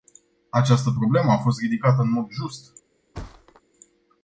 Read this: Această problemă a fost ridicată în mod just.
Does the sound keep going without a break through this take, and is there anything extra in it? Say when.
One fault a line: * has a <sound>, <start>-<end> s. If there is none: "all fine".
* has a thud, 3.1-3.6 s